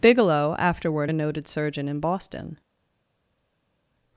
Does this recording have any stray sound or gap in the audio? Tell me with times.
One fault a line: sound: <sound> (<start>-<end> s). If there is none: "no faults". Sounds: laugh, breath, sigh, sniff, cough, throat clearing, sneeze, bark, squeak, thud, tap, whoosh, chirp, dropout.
no faults